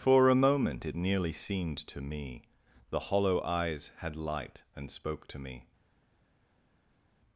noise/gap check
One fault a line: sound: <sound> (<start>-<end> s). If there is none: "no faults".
no faults